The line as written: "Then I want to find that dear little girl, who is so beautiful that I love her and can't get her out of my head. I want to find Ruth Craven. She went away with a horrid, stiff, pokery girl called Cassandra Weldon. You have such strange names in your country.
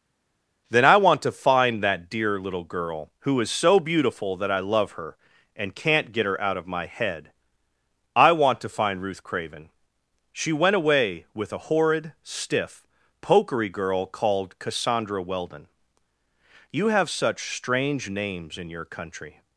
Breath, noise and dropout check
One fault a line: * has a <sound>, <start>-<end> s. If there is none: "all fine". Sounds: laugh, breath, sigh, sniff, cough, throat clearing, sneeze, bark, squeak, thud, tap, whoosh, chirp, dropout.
all fine